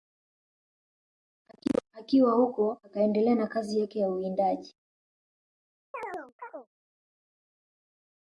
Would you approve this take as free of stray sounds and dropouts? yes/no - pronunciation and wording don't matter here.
no